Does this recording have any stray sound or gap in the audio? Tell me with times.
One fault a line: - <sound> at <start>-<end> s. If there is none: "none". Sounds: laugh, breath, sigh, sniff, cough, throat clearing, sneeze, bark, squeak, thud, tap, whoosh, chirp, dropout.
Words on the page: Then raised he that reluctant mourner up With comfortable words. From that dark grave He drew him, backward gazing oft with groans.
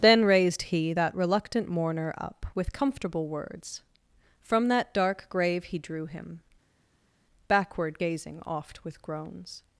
none